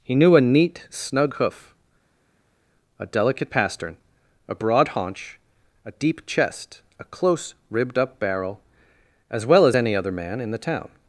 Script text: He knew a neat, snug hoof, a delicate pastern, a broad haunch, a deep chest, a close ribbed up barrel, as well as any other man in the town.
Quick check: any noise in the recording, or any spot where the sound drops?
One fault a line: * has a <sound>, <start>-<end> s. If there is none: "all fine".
all fine